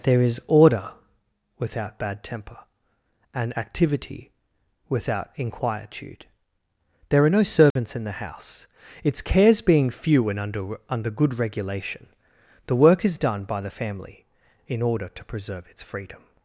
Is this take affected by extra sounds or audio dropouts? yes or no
yes